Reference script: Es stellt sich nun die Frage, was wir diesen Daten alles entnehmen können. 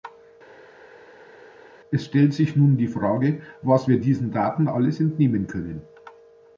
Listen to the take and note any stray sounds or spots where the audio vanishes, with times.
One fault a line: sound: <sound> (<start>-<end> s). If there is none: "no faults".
no faults